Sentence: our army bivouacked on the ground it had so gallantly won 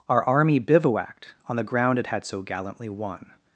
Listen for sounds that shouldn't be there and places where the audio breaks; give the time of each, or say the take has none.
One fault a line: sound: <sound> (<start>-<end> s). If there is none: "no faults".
no faults